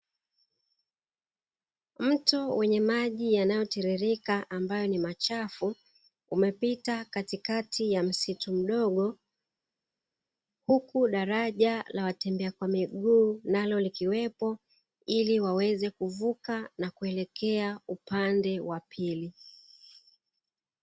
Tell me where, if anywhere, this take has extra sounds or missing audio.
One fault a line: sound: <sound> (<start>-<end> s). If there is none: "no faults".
no faults